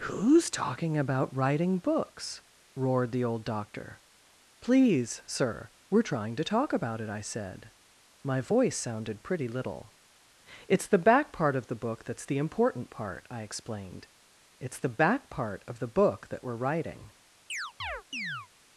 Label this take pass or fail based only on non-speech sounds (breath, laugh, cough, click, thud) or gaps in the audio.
fail